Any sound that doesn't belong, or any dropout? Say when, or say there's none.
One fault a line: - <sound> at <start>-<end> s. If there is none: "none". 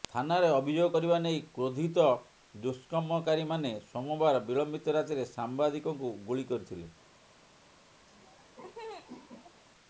- laugh at 8.1-9.6 s